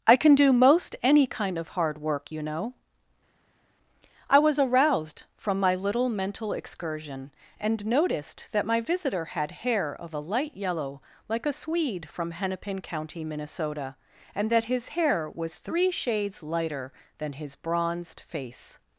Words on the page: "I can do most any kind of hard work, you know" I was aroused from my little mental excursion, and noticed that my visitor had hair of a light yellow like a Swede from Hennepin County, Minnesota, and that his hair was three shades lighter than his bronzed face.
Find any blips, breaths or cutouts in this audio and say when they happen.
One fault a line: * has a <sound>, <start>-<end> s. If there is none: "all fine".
all fine